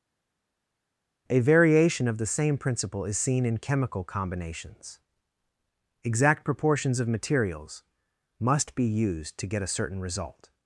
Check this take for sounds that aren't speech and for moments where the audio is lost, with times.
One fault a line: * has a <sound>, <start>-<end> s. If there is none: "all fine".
all fine